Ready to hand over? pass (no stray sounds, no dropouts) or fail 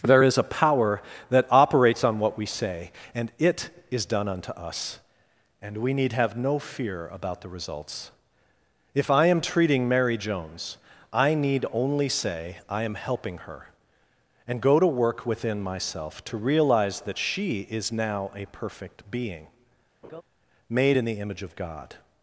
fail